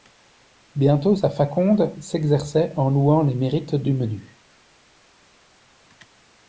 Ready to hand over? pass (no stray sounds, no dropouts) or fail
pass